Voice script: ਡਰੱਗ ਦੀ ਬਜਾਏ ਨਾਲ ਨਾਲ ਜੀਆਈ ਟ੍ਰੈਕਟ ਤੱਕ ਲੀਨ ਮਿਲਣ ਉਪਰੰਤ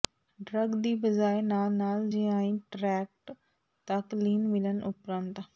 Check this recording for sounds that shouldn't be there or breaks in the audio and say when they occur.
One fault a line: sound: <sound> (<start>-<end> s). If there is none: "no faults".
no faults